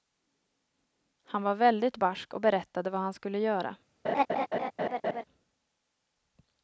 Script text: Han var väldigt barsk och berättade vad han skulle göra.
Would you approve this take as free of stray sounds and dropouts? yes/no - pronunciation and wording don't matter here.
no